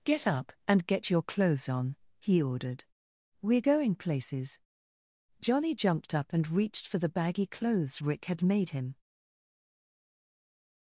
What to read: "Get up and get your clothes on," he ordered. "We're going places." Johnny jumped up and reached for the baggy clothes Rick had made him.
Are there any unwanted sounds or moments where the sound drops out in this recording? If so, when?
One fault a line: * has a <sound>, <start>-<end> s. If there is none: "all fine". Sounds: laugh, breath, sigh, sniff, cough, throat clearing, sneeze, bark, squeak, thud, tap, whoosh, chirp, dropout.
all fine